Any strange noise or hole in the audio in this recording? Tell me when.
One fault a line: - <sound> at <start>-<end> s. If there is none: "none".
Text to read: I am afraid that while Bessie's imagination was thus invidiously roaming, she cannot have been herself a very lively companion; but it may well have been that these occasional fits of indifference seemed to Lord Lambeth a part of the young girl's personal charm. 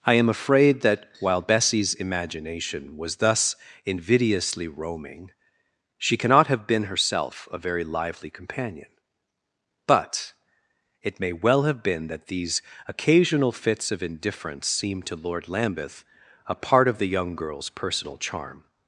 none